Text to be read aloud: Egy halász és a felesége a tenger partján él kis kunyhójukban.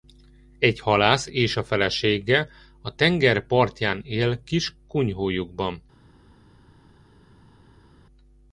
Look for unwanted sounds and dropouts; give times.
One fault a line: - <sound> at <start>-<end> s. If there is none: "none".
none